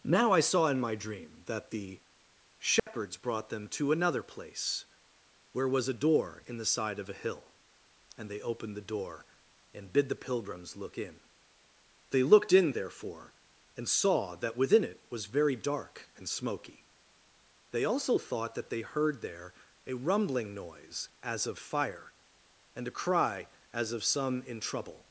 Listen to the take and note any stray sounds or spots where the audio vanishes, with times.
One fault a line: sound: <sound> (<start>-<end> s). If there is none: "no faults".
sound: dropout (2.8-2.9 s)